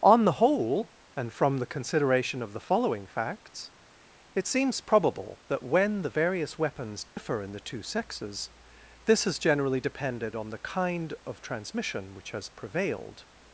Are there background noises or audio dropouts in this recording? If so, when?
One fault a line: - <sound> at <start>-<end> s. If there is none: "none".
- dropout at 7.1-7.2 s